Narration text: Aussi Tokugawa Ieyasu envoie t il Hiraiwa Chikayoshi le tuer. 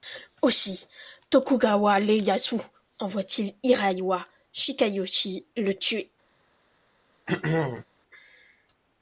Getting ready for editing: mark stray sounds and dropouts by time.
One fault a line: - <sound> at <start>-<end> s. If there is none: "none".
- throat clearing at 7.3-7.8 s